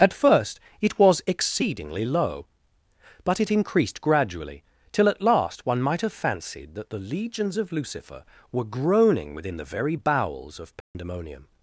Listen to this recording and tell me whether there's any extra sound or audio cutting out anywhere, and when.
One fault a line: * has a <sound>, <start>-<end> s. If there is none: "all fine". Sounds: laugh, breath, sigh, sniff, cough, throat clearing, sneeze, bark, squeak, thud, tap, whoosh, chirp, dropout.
* has a dropout, 10.8-10.9 s